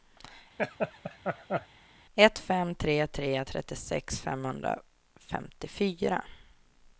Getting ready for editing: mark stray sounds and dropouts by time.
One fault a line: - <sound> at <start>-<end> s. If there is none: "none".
- laugh at 0.6-1.7 s